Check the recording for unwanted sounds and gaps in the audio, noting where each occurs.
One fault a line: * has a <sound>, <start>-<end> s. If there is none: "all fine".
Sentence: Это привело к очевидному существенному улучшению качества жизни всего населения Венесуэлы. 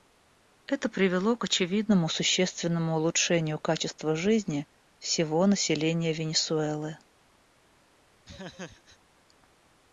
* has a laugh, 8.2-9.0 s